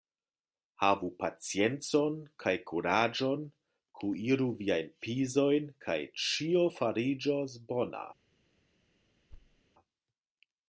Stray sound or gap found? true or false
true